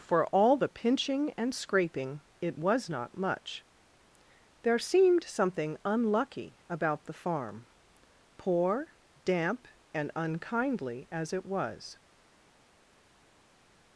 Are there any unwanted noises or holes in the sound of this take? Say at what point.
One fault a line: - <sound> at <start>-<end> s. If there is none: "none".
none